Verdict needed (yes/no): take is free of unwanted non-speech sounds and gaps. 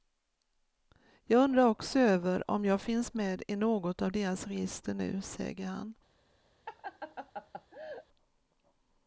no